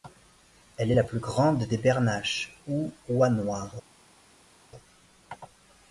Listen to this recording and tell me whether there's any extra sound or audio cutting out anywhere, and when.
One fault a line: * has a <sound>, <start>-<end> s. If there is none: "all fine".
all fine